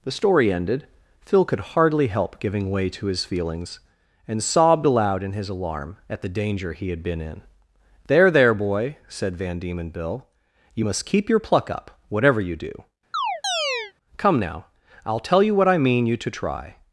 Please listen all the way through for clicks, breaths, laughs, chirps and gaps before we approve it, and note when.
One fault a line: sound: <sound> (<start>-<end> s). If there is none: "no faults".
sound: chirp (13.1-13.9 s)